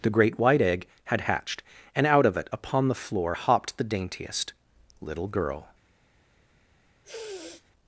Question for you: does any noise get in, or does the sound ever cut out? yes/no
yes